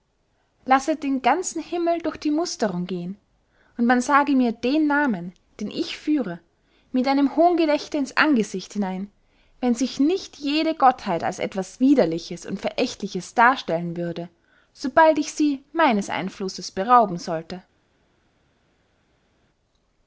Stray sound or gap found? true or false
false